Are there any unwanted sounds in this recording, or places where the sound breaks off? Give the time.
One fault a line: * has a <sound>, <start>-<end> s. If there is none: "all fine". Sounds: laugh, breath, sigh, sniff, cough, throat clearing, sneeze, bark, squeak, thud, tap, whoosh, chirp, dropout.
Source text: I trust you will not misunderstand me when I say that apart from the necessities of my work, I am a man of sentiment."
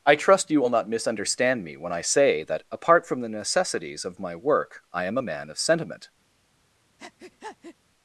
* has a breath, 7.0-7.8 s